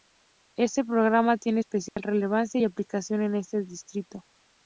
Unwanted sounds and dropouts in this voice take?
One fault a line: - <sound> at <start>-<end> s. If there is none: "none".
- dropout at 1.9-2.0 s